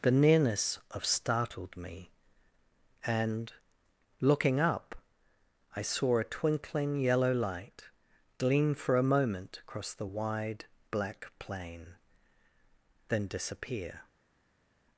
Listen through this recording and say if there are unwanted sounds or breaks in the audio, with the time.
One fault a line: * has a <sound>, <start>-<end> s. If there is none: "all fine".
all fine